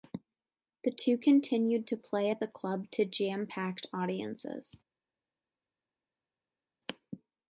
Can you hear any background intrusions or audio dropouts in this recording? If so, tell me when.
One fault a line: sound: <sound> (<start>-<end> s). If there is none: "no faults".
no faults